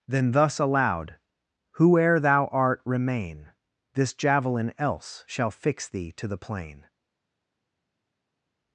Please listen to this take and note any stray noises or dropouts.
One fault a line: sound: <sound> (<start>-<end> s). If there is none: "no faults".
no faults